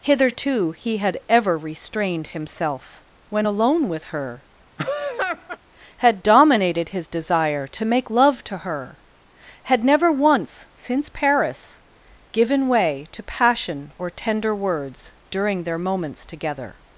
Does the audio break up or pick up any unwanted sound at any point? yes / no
yes